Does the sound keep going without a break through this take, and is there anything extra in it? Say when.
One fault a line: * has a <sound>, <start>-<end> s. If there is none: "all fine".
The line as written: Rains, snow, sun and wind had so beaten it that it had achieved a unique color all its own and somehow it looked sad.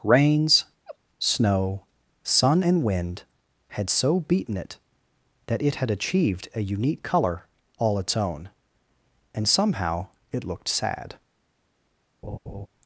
* has a laugh, 0.9-1.0 s
* has a laugh, 12.2-12.7 s